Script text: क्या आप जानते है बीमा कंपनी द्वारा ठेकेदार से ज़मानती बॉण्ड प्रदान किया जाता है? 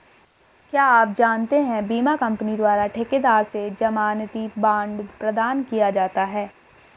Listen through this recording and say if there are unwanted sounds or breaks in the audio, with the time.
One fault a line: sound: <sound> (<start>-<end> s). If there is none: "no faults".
no faults